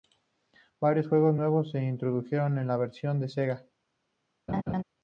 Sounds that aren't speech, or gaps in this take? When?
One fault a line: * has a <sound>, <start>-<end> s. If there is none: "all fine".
* has a laugh, 4.5-4.8 s